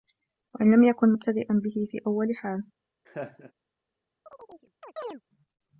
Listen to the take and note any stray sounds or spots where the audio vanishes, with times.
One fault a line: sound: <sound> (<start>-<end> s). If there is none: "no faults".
sound: laugh (3.1-3.5 s)
sound: chirp (4.3-5.2 s)